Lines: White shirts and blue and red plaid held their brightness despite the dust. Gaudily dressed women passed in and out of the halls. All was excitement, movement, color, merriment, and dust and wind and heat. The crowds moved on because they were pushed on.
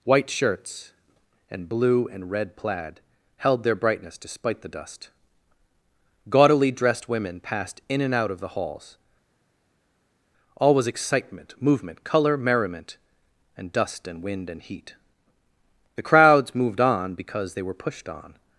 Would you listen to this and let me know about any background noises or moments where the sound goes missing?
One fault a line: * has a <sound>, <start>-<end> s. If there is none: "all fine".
all fine